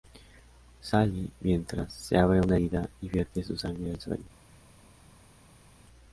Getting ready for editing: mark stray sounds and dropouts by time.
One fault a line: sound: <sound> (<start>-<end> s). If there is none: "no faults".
no faults